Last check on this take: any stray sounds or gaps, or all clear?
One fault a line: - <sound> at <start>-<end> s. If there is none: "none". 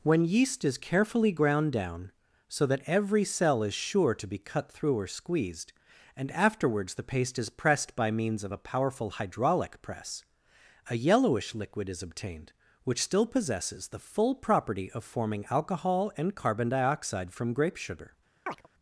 - chirp at 18.5-18.7 s